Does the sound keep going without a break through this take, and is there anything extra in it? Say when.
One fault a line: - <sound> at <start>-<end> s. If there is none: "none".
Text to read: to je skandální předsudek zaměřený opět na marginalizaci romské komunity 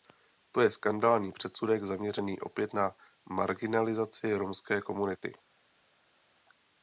none